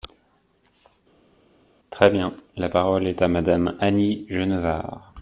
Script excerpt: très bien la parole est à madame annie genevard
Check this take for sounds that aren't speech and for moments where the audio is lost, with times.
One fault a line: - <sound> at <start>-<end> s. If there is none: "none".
none